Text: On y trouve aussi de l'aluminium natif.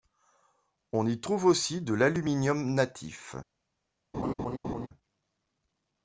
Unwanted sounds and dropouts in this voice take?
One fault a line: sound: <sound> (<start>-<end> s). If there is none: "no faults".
sound: laugh (4.1-4.9 s)